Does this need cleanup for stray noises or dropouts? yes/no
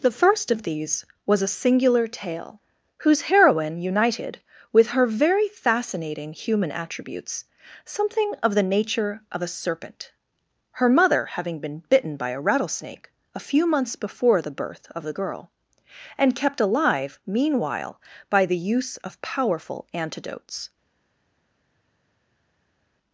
no